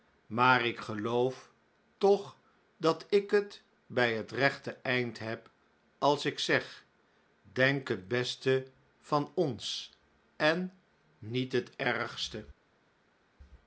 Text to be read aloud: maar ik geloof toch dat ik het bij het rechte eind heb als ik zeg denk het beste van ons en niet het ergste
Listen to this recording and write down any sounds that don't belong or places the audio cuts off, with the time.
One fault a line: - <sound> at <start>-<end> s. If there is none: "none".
none